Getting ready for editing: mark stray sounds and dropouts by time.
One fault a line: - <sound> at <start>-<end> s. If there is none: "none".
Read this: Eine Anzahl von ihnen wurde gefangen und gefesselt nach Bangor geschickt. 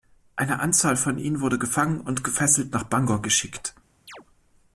- chirp at 4.1-4.3 s